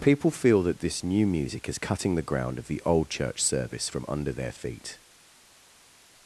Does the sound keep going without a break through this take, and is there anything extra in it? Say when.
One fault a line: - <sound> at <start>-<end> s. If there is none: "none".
none